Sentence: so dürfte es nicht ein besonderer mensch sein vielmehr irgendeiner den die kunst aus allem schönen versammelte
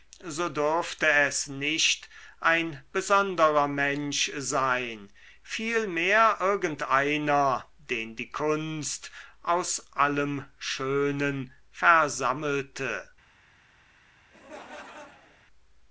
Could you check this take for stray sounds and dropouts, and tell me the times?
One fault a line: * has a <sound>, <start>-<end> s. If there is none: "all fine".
* has a laugh, 14.3-15.4 s